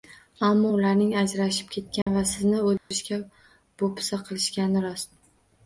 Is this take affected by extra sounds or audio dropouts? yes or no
yes